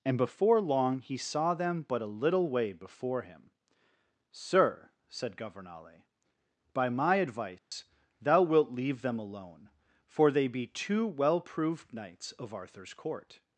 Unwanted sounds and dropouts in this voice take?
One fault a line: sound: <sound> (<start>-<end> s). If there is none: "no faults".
sound: dropout (7.6-7.7 s)